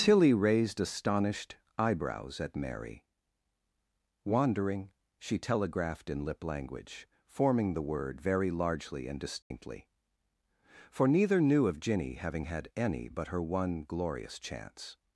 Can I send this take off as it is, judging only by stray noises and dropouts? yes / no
no